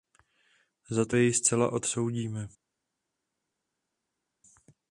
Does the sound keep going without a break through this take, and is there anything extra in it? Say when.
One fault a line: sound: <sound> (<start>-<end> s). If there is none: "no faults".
no faults